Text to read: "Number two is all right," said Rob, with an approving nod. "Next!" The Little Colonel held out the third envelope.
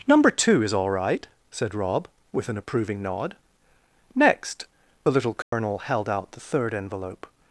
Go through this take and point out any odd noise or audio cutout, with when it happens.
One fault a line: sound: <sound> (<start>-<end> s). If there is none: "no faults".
sound: dropout (5.4-5.5 s)